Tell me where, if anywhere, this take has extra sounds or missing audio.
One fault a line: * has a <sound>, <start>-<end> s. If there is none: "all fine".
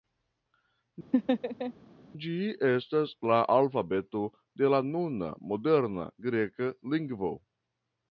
* has a laugh, 1.1-1.7 s